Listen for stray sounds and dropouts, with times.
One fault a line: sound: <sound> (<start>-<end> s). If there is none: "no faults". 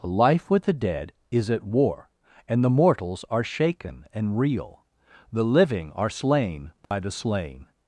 sound: dropout (6.8-6.9 s)